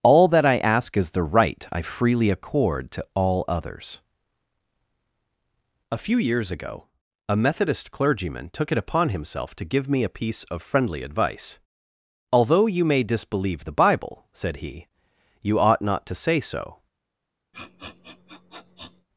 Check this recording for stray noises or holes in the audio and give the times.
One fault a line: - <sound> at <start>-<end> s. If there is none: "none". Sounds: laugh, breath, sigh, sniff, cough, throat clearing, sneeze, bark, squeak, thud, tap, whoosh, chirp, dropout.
- sniff at 17.5-19.1 s